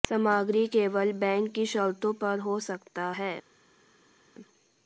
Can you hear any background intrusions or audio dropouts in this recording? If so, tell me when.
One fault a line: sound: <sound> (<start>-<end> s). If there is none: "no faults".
no faults